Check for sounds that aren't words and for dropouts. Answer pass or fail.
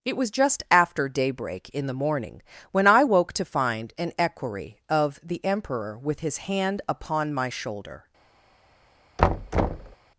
fail